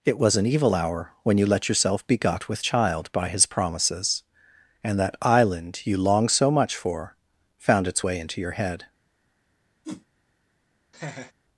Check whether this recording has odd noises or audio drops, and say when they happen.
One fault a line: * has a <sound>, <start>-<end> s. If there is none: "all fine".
* has a whoosh, 9.8-10.1 s
* has a laugh, 10.9-11.3 s